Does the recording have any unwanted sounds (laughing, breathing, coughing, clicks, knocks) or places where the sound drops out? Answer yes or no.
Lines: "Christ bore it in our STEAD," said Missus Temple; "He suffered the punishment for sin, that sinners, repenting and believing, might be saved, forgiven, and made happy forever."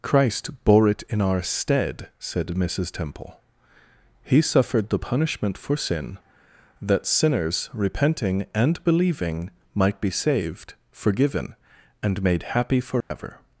yes